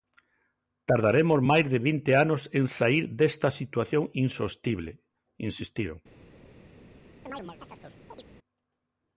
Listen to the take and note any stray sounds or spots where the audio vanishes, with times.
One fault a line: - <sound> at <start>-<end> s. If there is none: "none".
- chirp at 7.3-8.2 s